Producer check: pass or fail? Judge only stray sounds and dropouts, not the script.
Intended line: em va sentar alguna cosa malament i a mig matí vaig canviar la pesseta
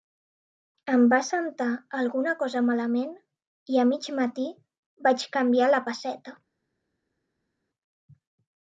pass